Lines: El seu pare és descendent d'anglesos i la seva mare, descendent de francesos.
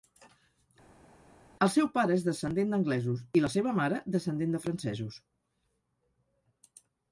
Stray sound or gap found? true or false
false